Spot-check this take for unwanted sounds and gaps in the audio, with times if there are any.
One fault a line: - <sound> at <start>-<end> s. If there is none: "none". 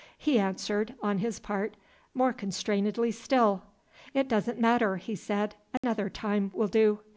- dropout at 5.8-5.8 s